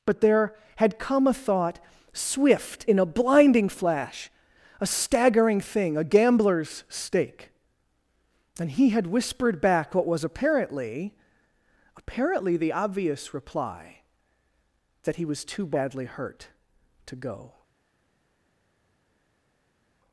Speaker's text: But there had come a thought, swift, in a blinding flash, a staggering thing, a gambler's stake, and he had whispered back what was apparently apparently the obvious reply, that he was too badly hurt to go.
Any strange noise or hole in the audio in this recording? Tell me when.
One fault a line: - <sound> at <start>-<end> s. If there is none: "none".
none